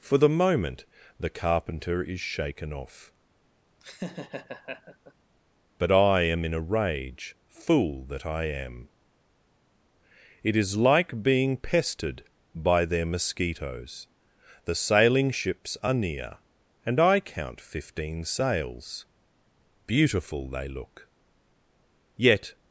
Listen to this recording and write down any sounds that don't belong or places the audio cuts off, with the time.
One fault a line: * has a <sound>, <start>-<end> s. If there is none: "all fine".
* has a laugh, 3.8-5.1 s